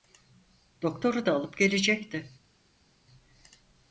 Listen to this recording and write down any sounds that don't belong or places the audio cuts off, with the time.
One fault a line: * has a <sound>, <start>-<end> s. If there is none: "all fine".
all fine